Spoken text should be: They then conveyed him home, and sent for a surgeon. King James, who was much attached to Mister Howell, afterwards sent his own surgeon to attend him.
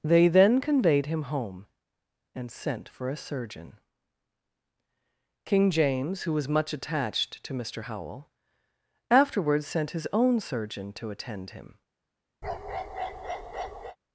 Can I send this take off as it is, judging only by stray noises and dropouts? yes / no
no